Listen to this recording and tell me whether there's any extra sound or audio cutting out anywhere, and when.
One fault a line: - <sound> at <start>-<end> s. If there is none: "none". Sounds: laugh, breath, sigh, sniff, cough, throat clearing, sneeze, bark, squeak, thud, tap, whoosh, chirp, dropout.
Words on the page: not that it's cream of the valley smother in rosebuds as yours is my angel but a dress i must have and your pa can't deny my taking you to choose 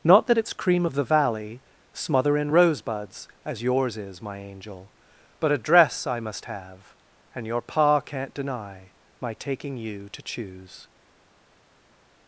none